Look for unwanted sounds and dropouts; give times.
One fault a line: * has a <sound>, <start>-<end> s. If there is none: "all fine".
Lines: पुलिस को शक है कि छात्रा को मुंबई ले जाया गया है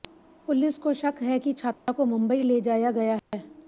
* has a dropout, 1.7-1.9 s
* has a dropout, 3.2-3.3 s